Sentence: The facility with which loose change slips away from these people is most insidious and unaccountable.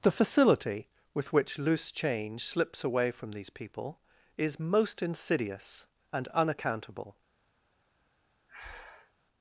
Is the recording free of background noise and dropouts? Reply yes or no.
no